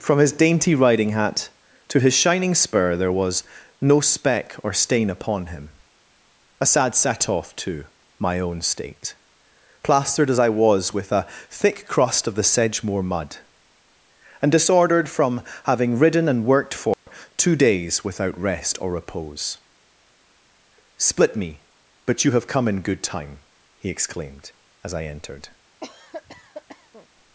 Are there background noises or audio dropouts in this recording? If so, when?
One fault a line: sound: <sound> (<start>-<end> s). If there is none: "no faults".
sound: dropout (16.9-17.1 s)
sound: cough (25.8-27.1 s)